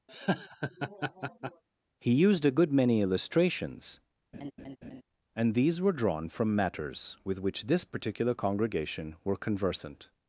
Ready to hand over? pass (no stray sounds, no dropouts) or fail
fail